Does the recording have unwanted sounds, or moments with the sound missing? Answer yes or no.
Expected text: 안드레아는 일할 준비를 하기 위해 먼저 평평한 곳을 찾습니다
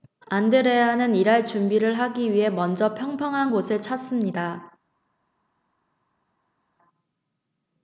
no